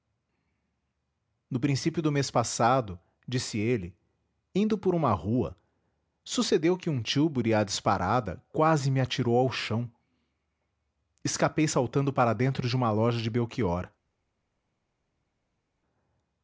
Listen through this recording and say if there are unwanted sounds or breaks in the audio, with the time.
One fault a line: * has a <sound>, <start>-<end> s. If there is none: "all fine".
all fine